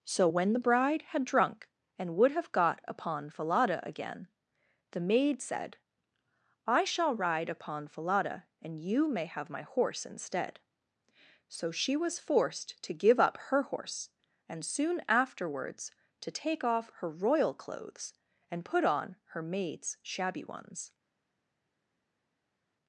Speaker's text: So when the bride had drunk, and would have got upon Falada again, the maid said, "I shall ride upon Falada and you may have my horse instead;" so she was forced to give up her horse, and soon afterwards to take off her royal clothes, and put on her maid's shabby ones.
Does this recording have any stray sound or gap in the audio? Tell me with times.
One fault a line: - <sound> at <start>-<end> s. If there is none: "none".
none